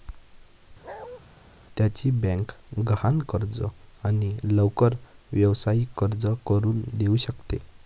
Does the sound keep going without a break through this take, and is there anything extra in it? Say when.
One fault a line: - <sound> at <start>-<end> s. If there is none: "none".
- bark at 0.8-1.2 s